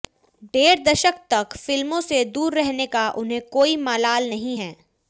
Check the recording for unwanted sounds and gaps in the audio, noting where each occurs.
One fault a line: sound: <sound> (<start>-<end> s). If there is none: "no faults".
no faults